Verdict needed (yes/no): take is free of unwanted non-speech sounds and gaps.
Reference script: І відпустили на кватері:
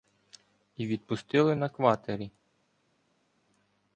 yes